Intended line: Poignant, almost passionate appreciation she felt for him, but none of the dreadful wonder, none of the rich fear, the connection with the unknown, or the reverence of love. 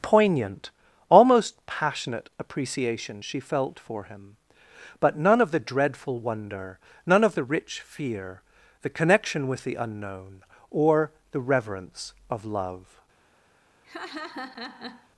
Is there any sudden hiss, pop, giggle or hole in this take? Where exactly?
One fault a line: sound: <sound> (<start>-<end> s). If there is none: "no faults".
sound: laugh (13.8-15.1 s)